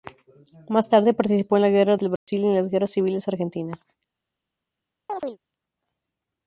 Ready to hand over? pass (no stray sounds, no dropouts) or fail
fail